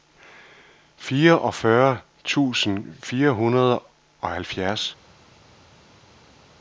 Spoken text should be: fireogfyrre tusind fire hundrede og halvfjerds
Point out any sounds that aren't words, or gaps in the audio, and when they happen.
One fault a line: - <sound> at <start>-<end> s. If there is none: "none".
none